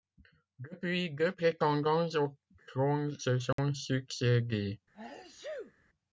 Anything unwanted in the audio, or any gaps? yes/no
yes